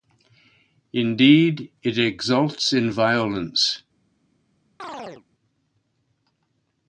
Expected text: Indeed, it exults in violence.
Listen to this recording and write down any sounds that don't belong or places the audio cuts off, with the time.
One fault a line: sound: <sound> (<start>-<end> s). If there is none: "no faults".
sound: chirp (4.8-5.3 s)